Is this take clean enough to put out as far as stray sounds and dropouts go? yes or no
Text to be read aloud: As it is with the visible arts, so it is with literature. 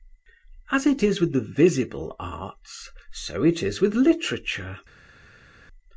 yes